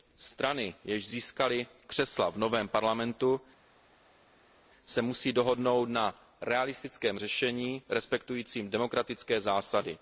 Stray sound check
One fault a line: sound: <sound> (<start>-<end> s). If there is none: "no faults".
no faults